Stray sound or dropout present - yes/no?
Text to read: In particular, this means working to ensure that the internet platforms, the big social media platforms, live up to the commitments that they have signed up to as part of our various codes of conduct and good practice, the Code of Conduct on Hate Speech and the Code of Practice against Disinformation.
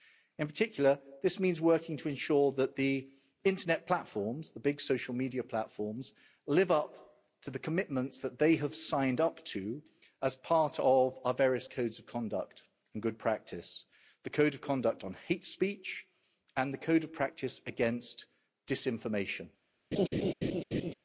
yes